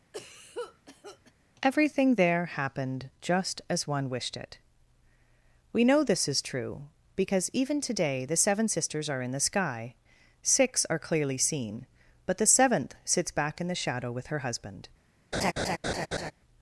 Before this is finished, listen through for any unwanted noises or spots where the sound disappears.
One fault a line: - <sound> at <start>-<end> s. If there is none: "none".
- cough at 0.1-1.3 s
- laugh at 15.3-16.3 s